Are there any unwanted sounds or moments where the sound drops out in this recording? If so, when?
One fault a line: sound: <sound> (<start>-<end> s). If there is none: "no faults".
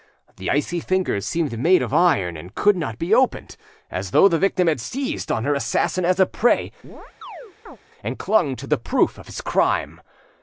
sound: chirp (6.8-7.8 s)